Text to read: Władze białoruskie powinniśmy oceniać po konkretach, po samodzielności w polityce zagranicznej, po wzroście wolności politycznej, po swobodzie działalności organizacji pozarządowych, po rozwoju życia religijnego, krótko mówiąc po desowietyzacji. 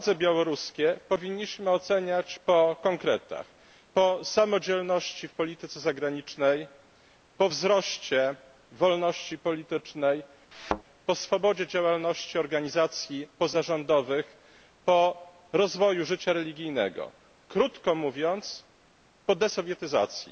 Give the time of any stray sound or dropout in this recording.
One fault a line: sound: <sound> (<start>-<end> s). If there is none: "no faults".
sound: thud (10.5-10.8 s)